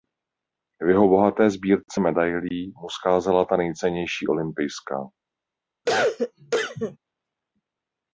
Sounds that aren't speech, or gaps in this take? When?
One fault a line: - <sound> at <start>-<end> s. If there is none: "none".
- cough at 5.9-7.0 s